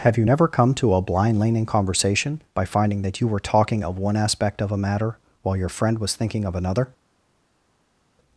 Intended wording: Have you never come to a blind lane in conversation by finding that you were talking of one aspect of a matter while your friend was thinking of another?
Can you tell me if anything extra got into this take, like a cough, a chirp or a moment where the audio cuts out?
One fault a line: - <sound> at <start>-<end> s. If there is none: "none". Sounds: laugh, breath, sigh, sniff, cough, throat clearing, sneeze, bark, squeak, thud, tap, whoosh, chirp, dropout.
none